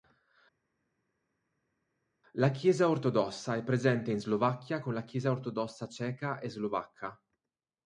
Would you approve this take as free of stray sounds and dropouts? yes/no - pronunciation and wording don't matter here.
yes